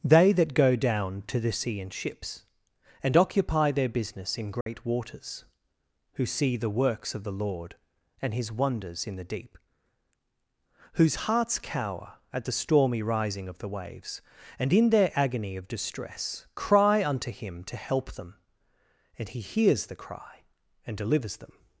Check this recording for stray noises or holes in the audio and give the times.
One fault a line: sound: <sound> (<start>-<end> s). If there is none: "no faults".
sound: dropout (4.6-4.7 s)